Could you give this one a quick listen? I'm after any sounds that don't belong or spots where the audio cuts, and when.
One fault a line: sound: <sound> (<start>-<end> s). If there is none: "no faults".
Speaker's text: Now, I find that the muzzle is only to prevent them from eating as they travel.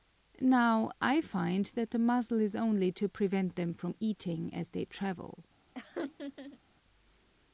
sound: laugh (5.7-6.6 s)